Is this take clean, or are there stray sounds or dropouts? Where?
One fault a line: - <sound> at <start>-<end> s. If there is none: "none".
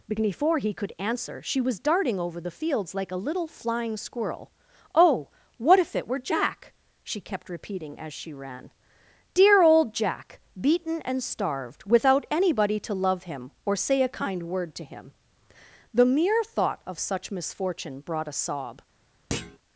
- thud at 19.3-19.6 s